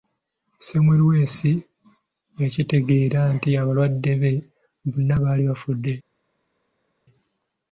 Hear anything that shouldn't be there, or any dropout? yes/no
no